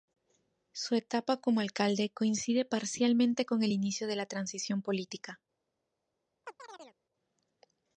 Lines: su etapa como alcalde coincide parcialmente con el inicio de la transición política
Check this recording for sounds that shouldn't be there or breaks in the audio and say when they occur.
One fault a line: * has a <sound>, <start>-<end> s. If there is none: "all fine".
* has a chirp, 6.4-7.0 s